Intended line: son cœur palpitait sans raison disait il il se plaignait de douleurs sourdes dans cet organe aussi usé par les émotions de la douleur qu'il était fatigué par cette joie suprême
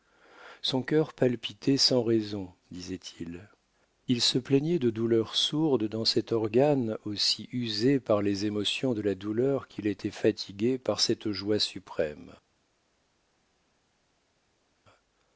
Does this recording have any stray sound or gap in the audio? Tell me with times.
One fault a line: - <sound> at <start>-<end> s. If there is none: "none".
none